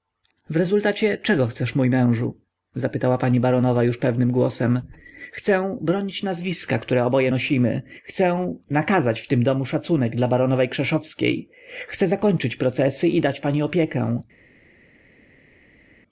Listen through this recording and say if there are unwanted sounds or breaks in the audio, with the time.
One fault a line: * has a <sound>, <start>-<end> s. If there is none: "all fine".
all fine